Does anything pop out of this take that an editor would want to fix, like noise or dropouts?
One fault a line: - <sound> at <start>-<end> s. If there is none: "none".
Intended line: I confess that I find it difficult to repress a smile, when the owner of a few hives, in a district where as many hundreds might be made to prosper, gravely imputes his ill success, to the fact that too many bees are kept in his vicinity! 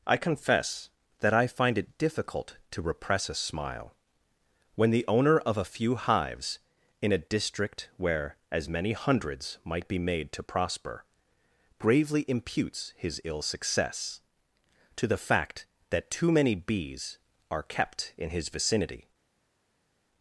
none